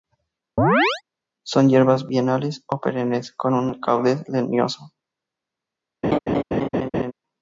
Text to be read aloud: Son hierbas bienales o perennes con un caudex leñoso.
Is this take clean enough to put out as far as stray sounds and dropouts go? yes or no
no